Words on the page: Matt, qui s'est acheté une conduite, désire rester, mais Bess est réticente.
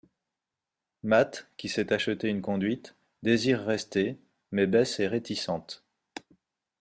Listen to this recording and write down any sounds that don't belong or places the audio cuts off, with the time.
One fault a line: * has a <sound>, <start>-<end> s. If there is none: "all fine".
all fine